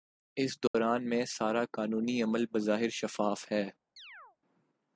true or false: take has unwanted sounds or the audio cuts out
true